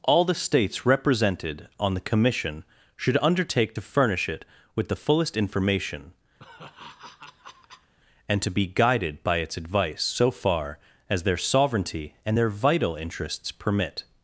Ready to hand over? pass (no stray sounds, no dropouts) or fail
fail